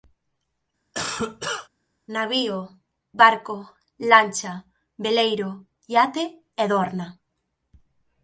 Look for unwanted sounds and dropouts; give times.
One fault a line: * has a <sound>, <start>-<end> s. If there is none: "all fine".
* has a cough, 0.9-1.7 s